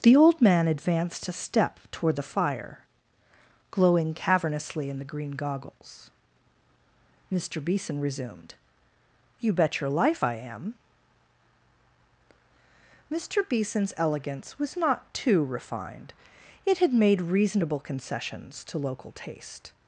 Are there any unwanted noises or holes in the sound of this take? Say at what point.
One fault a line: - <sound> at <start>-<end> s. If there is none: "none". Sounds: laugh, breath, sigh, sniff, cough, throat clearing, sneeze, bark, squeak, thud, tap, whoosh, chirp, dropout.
none